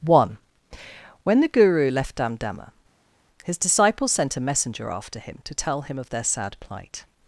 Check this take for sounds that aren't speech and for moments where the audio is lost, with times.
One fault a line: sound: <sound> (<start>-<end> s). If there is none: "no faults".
no faults